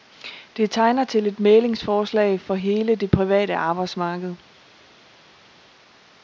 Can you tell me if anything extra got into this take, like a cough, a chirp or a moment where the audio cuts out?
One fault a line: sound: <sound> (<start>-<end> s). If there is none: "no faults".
no faults